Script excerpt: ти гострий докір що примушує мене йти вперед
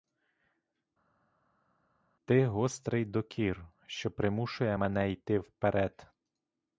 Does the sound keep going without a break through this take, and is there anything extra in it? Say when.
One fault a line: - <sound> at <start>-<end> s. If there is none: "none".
none